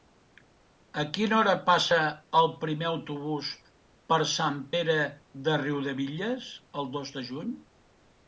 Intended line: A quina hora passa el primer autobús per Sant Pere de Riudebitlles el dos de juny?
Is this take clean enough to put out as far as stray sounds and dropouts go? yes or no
yes